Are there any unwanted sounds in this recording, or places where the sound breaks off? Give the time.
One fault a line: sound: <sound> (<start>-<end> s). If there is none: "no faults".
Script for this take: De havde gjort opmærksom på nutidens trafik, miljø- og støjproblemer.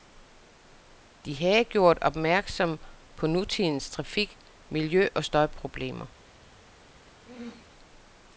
sound: throat clearing (7.3-7.7 s)